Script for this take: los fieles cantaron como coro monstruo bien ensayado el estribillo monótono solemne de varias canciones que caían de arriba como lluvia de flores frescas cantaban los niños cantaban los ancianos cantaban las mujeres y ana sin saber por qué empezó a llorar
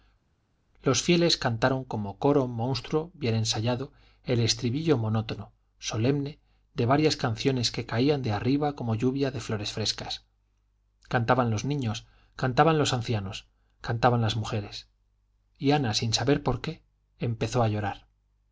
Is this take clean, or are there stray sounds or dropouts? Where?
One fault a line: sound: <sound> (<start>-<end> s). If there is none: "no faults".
no faults